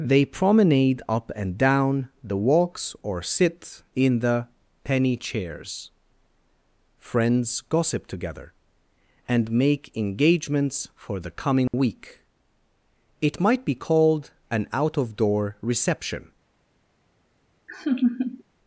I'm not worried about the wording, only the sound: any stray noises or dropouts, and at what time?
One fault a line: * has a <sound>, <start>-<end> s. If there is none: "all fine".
* has a dropout, 11.7-11.7 s
* has a laugh, 17.7-18.4 s